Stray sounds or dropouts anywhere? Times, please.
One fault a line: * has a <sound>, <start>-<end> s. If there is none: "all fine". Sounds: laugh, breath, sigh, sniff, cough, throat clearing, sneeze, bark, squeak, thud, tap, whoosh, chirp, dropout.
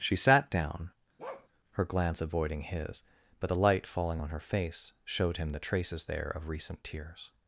* has a bark, 1.2-1.5 s